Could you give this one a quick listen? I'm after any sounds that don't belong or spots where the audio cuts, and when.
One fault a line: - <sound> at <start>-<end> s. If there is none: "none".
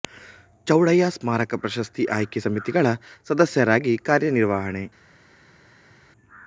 none